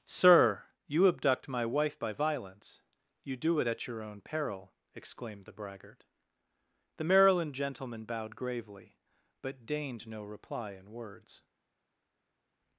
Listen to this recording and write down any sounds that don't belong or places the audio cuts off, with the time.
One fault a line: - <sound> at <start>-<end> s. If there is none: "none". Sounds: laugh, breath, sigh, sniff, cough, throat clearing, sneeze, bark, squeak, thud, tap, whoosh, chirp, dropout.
none